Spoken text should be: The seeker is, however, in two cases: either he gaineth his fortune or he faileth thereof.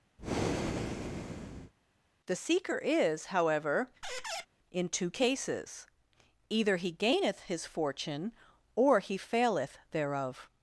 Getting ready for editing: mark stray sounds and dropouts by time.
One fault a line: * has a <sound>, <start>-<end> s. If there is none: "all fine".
* has a breath, 0.2-1.7 s
* has a squeak, 4.0-4.5 s